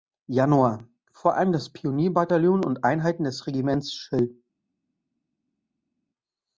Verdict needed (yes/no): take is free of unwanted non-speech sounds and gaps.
yes